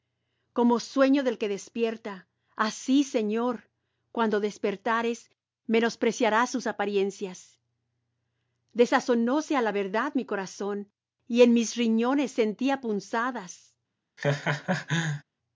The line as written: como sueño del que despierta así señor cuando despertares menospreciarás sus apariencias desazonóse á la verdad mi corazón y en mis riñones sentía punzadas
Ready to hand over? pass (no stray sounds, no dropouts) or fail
fail